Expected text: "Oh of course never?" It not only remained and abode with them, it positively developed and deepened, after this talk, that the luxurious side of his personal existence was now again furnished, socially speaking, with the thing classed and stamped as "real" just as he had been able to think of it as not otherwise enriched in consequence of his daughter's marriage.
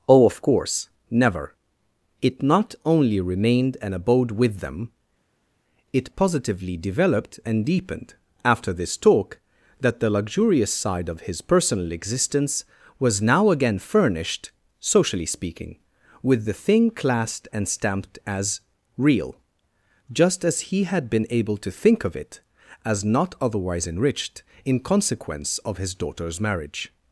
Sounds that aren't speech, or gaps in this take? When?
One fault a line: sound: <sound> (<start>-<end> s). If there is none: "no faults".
no faults